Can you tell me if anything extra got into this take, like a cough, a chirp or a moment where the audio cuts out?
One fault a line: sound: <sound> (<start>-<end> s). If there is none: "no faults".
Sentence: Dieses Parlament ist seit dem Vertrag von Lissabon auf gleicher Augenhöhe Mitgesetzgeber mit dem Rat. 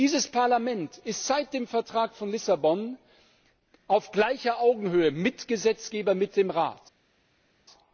no faults